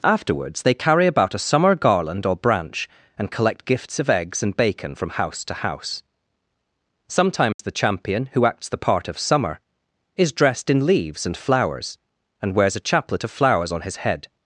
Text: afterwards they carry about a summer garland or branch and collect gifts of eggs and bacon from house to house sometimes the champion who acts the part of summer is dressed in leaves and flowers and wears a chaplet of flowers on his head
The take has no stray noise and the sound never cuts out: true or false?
false